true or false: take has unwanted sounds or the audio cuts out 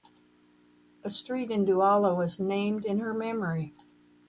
false